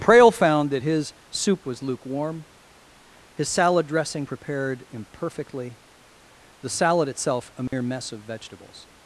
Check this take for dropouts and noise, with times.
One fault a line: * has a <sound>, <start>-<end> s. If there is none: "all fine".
* has a dropout, 7.7-7.7 s